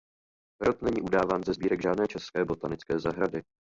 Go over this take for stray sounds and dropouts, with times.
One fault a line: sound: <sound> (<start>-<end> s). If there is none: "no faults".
no faults